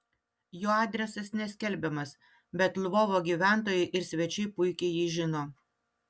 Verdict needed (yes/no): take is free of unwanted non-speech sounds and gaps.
yes